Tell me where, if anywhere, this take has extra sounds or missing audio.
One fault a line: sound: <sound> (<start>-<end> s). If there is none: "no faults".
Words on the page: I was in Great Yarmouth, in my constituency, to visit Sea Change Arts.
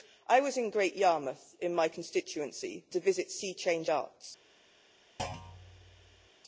sound: thud (5.2-6.3 s)